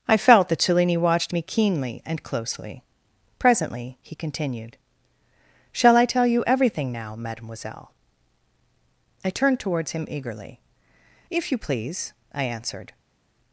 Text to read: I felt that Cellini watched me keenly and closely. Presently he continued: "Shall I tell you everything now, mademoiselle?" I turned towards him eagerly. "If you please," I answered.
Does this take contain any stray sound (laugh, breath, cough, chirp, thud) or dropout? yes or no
no